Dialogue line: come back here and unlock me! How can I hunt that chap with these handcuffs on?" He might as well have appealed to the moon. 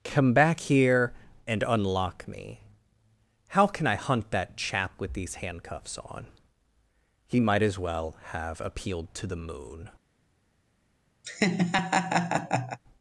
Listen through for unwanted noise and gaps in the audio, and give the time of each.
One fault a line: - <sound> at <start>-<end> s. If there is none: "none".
- laugh at 11.2-12.8 s